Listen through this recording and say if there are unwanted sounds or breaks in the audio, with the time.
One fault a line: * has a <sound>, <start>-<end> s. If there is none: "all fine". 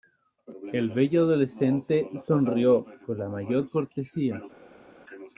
all fine